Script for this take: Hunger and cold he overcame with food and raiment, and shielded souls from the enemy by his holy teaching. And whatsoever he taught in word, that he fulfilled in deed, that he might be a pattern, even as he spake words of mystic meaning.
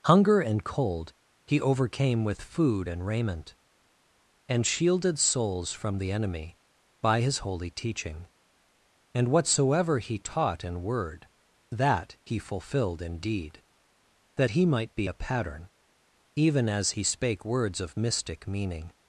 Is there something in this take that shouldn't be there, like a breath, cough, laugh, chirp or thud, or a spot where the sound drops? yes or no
no